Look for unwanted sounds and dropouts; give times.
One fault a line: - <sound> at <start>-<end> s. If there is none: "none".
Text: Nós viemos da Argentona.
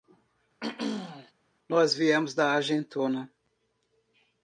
- throat clearing at 0.6-1.3 s